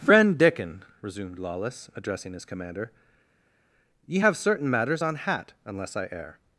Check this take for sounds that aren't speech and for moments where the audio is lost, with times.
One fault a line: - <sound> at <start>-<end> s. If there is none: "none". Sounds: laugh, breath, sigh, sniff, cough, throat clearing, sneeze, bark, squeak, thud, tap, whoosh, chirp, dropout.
none